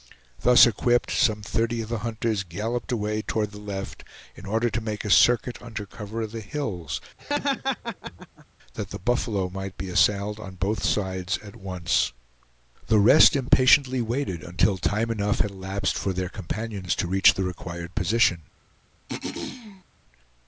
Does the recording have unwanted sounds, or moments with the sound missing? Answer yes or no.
yes